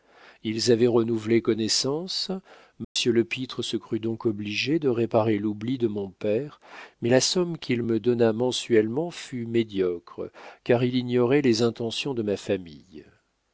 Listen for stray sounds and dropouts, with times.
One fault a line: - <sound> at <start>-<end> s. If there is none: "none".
- dropout at 2.8-3.0 s